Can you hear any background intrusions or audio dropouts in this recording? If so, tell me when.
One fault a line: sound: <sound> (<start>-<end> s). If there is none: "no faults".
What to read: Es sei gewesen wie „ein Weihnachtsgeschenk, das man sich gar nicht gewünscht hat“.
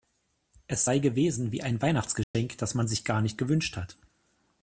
sound: dropout (2.2-2.3 s)